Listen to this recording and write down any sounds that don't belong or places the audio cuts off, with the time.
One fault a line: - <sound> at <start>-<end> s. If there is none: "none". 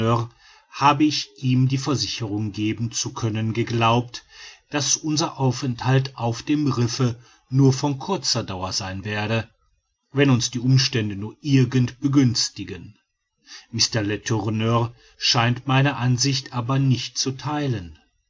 none